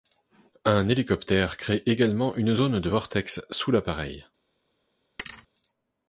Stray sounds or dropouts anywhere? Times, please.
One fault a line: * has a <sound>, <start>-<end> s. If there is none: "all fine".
* has a thud, 5.2-5.5 s